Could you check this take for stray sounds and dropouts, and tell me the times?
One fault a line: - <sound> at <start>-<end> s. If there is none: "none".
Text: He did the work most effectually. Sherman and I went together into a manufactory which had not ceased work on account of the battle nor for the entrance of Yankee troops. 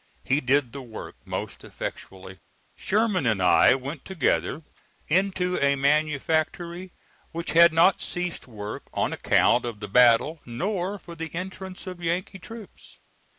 none